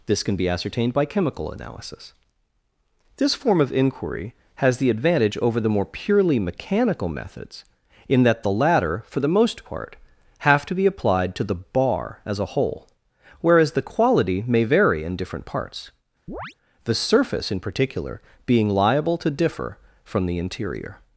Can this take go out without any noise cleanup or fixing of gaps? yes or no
no